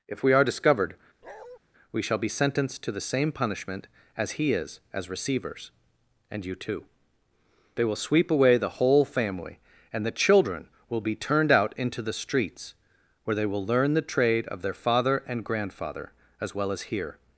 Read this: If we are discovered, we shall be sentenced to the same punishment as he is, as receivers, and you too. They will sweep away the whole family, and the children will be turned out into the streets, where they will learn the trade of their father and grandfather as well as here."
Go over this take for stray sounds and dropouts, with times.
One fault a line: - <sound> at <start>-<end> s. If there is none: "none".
- bark at 1.2-1.6 s